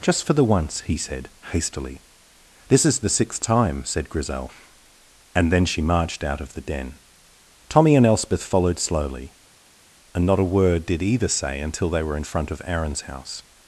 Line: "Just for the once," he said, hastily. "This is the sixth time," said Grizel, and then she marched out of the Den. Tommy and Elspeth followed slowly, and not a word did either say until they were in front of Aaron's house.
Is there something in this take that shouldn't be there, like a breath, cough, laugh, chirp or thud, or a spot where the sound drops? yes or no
no